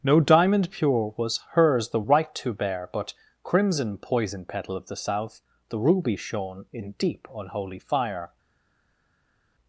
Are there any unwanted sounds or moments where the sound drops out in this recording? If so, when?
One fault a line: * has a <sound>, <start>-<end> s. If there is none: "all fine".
all fine